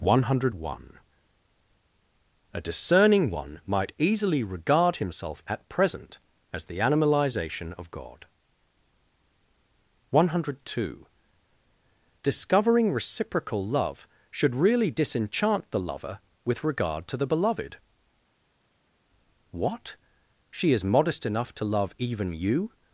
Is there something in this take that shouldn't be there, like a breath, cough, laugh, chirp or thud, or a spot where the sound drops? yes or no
no